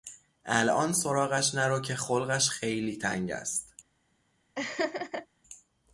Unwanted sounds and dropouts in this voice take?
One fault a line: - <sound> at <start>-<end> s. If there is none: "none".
- laugh at 4.6-5.3 s